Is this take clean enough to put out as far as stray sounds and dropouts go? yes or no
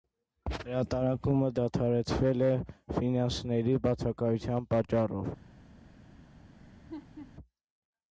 no